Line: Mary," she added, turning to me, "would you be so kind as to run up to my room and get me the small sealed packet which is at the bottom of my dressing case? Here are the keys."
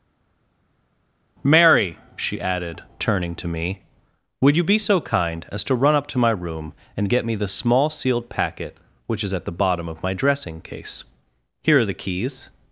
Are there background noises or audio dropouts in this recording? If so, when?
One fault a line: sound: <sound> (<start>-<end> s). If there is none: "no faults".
no faults